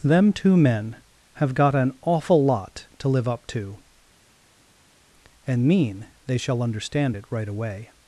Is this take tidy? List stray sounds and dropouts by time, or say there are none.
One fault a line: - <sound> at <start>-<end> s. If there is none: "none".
none